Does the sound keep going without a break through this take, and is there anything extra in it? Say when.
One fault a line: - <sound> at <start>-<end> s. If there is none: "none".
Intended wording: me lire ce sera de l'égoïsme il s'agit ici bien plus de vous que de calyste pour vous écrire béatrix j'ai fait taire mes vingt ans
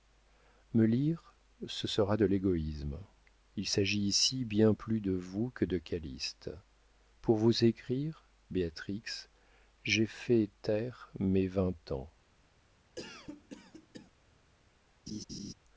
- cough at 13.0-14.1 s
- laugh at 15.1-15.5 s